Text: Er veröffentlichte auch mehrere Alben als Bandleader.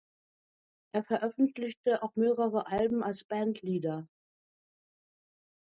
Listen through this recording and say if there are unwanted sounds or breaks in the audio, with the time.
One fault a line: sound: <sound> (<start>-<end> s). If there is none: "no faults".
no faults